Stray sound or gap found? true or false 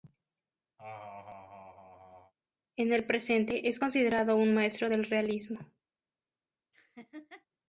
true